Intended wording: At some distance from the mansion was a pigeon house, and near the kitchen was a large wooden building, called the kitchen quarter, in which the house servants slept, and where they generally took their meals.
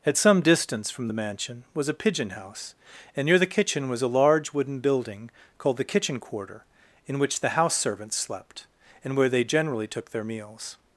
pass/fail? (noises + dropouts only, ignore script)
pass